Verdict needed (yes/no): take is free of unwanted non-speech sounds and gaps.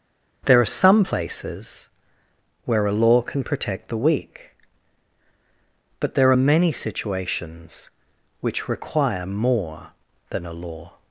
yes